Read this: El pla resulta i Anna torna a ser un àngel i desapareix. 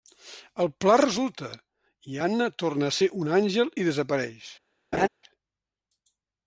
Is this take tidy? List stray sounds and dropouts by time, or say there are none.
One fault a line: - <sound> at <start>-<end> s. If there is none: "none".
- laugh at 4.9-5.1 s